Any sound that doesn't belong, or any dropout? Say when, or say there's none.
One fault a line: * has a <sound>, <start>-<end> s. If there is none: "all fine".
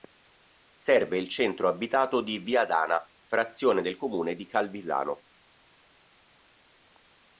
all fine